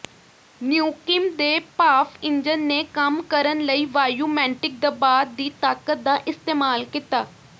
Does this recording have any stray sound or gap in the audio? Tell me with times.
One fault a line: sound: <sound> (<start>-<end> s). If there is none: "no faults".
no faults